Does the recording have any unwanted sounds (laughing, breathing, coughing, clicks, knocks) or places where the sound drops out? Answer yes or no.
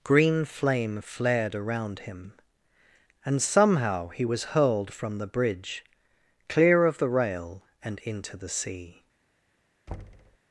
yes